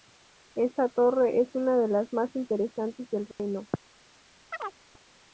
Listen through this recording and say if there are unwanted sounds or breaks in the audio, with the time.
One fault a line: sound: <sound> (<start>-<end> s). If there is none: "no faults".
sound: dropout (3.3-3.4 s)
sound: chirp (4.5-4.8 s)